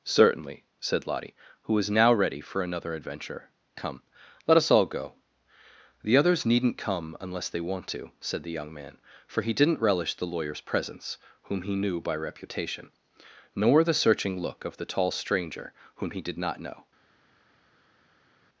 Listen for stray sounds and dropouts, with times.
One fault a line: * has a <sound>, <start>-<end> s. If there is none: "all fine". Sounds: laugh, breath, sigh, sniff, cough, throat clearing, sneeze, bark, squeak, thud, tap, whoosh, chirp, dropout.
all fine